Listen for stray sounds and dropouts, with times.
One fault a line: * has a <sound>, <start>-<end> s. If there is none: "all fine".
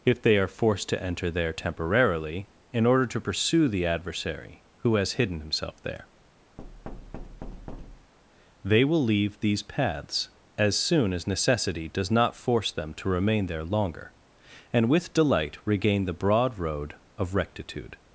* has a thud, 6.6-8.1 s